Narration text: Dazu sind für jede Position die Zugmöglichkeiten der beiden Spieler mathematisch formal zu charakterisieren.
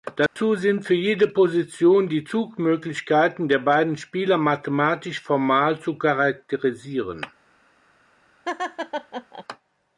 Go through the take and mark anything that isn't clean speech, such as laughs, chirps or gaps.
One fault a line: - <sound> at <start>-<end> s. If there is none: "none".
- dropout at 0.3-0.4 s
- laugh at 8.4-9.4 s